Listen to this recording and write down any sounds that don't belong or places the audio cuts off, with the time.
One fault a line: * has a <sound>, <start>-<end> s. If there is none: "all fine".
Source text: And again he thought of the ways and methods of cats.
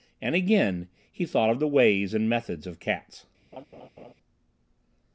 * has a laugh, 3.5-4.1 s